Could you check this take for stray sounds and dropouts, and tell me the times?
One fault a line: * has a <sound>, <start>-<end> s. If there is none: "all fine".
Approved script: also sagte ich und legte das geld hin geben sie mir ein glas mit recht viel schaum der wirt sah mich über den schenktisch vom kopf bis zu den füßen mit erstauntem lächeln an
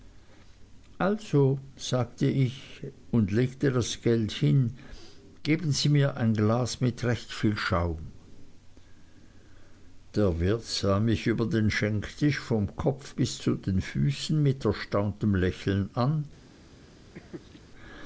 * has a laugh, 17.1-17.6 s